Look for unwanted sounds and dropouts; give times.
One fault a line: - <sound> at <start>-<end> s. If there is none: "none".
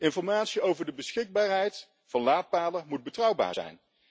none